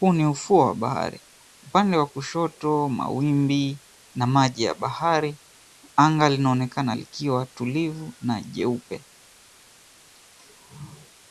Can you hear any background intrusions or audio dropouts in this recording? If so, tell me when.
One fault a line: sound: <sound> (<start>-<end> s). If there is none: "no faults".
no faults